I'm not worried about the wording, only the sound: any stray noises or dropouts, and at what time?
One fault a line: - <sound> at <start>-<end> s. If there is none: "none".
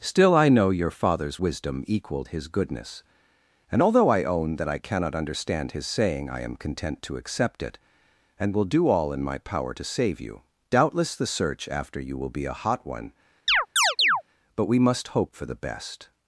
- chirp at 13.5-14.2 s